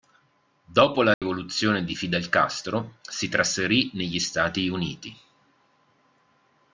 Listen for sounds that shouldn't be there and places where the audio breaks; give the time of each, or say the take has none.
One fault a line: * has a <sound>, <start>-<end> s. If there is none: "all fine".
* has a dropout, 1.1-1.2 s